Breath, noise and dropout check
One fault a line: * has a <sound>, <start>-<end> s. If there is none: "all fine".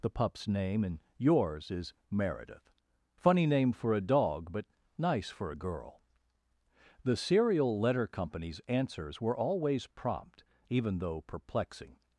all fine